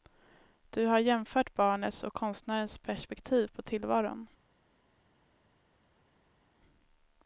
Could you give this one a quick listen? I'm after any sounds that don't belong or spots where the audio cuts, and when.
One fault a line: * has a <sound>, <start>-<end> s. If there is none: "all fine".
all fine